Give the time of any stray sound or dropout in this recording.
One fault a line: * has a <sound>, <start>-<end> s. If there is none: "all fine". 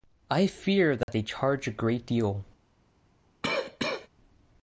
* has a dropout, 1.0-1.1 s
* has a cough, 3.4-4.1 s